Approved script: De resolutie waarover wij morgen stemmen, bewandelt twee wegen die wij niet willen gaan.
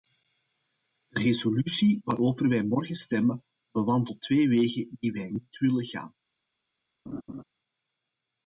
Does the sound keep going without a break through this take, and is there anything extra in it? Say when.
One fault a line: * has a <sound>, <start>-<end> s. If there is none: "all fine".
* has a laugh, 7.1-7.4 s